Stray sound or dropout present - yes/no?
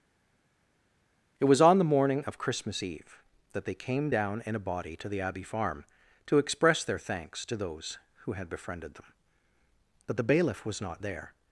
no